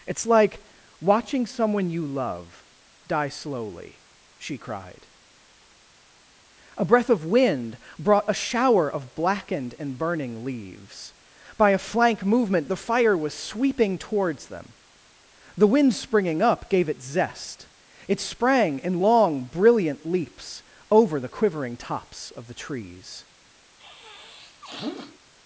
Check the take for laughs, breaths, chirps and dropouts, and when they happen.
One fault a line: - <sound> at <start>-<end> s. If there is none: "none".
- sniff at 23.8-25.2 s